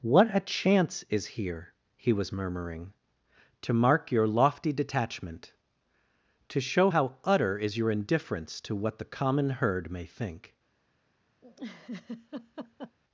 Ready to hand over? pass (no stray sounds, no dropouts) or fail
fail